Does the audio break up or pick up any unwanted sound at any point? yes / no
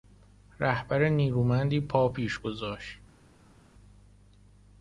no